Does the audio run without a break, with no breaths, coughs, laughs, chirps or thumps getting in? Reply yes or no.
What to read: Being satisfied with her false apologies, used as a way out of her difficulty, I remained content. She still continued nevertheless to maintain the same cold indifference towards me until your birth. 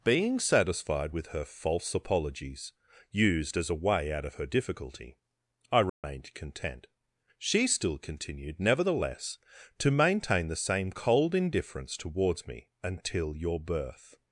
no